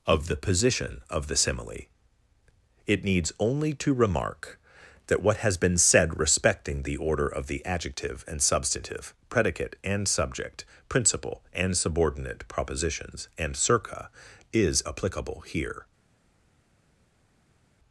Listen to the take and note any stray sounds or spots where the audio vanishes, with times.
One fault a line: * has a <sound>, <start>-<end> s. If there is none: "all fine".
all fine